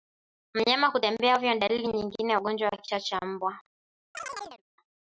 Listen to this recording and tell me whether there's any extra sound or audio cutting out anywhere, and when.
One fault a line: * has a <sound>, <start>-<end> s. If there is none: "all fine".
* has a chirp, 4.1-4.6 s